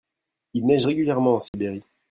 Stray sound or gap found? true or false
true